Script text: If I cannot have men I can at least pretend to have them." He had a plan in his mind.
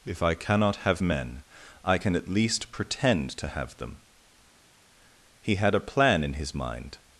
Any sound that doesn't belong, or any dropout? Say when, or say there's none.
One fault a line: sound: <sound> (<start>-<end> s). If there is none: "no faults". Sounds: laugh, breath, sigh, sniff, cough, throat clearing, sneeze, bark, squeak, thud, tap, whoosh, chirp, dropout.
no faults